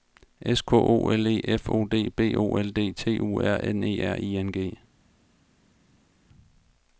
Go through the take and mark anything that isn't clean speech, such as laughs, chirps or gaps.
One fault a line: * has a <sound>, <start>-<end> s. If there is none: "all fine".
all fine